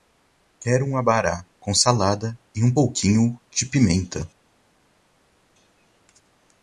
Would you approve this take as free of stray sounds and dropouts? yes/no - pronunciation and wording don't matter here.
yes